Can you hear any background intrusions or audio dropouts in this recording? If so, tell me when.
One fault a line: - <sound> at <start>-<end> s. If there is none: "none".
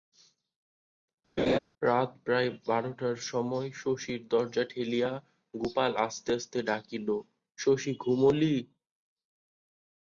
- laugh at 1.4-1.6 s